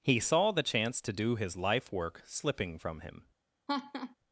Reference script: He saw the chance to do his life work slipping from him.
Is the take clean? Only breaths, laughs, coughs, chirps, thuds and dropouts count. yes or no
no